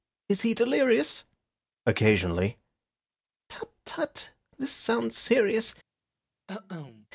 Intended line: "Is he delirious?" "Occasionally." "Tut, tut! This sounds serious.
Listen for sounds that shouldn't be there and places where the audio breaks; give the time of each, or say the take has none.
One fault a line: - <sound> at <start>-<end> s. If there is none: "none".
- cough at 6.5-7.1 s